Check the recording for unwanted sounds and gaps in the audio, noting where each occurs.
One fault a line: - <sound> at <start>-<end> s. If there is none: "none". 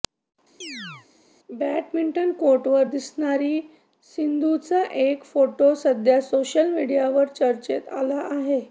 - chirp at 0.6-1.1 s